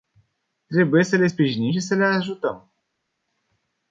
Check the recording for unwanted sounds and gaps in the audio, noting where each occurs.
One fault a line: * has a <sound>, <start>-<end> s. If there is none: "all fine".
all fine